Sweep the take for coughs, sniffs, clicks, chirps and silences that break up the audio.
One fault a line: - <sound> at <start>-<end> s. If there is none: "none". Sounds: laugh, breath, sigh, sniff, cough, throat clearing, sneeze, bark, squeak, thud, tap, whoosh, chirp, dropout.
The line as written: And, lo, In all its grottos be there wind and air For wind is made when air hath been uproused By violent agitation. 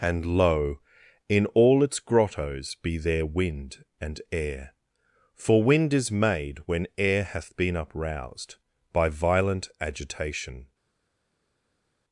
none